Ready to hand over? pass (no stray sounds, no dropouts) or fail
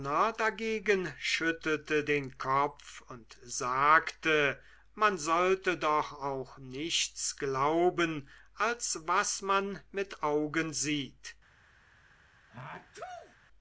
fail